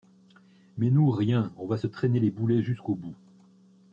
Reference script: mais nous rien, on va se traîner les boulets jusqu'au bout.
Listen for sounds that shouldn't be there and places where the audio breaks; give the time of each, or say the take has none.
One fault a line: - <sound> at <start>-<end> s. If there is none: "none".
none